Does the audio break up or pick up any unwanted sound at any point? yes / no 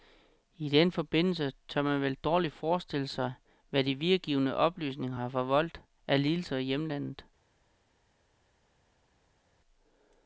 no